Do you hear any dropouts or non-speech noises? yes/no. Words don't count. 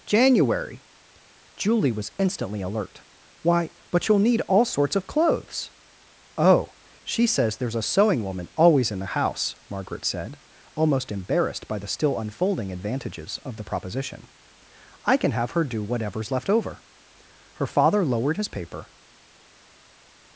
no